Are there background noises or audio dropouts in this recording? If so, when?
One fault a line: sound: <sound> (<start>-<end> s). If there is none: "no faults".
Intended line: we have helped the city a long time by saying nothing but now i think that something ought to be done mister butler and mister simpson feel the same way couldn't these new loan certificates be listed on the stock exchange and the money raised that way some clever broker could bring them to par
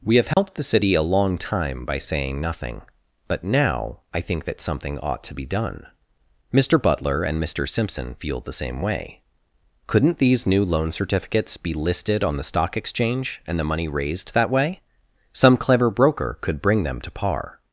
sound: dropout (0.3-0.4 s)